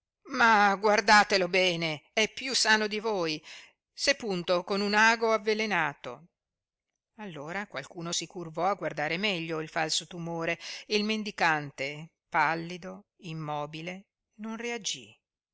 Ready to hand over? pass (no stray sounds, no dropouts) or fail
pass